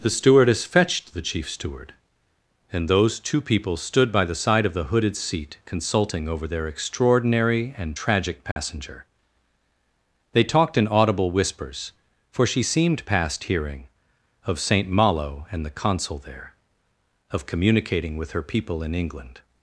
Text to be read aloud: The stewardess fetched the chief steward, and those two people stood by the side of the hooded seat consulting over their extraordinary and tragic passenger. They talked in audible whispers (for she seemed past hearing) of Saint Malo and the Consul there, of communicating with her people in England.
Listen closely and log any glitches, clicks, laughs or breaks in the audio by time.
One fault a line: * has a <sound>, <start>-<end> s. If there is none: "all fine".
* has a dropout, 8.5-8.6 s